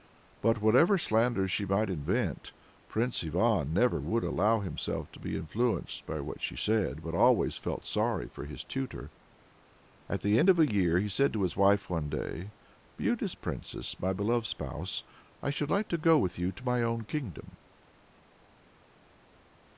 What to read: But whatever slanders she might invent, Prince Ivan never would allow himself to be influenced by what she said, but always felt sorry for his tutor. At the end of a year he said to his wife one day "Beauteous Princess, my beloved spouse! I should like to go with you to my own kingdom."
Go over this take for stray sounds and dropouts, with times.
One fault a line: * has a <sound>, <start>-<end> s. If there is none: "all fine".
all fine